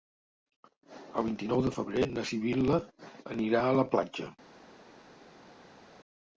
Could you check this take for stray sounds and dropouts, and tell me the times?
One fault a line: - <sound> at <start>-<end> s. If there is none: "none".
none